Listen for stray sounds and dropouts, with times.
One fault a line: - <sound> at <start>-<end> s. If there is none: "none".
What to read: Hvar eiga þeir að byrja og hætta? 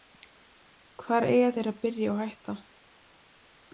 none